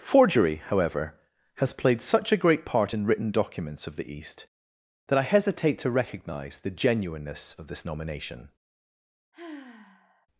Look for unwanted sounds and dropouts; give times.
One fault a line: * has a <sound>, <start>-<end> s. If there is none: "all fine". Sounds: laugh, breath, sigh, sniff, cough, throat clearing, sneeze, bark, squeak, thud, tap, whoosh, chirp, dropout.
* has a sigh, 9.3-10.3 s